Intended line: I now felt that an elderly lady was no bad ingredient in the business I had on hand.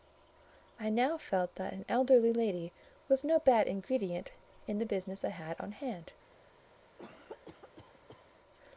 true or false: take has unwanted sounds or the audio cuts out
true